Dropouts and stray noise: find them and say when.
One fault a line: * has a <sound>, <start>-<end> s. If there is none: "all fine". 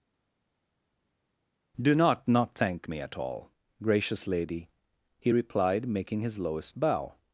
all fine